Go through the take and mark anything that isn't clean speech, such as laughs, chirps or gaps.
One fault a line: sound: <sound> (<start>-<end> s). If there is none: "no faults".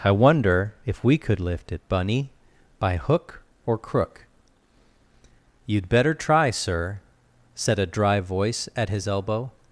no faults